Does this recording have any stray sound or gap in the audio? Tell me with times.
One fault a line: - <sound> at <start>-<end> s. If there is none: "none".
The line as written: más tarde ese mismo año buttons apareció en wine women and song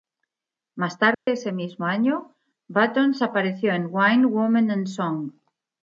- dropout at 1.1-1.3 s